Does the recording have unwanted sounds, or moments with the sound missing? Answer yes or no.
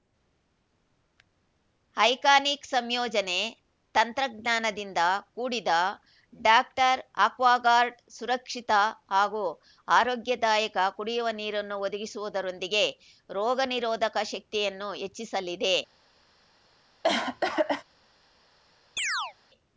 yes